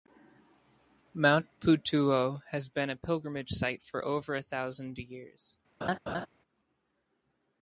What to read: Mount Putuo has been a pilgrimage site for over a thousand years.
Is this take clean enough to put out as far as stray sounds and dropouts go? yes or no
no